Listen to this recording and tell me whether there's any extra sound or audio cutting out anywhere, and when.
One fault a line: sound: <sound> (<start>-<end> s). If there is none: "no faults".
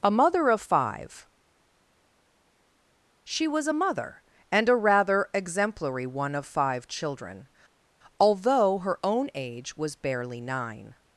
no faults